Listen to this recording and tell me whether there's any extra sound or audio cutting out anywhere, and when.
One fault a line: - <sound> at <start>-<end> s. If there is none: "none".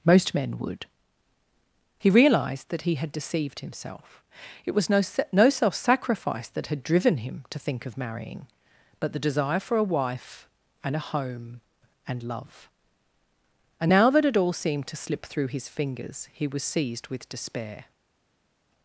none